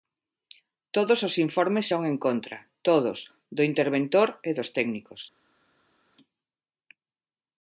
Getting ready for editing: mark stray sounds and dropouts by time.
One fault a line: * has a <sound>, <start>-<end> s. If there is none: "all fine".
all fine